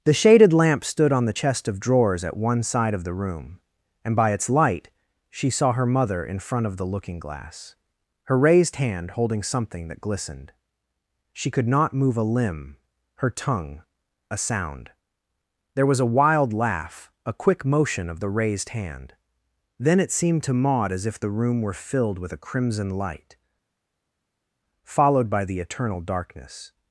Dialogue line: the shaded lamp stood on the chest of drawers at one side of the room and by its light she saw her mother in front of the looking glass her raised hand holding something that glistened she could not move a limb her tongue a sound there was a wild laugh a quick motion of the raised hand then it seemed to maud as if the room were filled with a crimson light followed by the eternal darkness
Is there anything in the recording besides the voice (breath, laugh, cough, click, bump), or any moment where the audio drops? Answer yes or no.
no